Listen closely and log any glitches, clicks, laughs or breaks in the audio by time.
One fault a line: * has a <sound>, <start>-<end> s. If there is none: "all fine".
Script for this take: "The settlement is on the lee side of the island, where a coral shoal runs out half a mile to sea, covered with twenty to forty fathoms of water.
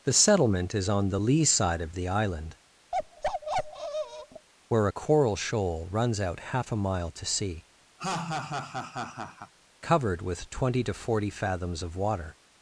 * has a bark, 2.9-4.5 s
* has a laugh, 8.0-9.5 s